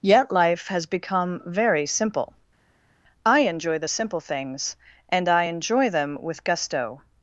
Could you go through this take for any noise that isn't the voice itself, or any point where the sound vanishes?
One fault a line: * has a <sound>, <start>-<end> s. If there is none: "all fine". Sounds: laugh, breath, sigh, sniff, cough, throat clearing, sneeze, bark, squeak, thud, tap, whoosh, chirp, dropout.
all fine